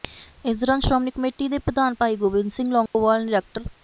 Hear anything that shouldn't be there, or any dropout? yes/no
yes